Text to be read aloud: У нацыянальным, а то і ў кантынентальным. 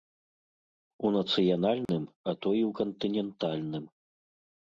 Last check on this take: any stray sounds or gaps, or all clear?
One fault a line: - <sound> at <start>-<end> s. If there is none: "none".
- dropout at 1.9-1.9 s